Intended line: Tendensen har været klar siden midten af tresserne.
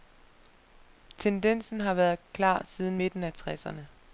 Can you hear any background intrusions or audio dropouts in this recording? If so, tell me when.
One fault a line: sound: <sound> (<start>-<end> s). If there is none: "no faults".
no faults